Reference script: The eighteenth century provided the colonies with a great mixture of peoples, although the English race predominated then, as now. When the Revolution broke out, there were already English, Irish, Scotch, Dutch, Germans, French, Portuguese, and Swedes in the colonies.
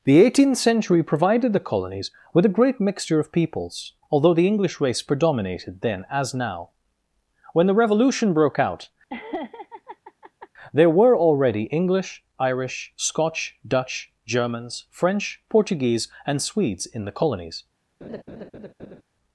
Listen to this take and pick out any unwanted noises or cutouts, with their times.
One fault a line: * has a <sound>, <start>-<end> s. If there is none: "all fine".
* has a laugh, 9.1-10.5 s
* has a laugh, 18.0-19.0 s